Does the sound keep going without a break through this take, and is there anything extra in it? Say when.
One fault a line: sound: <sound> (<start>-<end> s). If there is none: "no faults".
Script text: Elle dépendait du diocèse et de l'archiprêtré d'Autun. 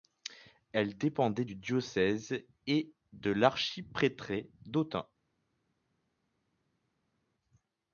no faults